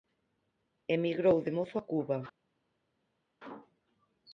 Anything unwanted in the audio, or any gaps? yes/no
no